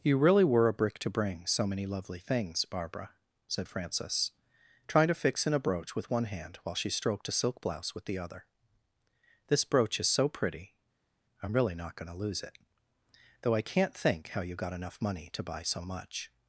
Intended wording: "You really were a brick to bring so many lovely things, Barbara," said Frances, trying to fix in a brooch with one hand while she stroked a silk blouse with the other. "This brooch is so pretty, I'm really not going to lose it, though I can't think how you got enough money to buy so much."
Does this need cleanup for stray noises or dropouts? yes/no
no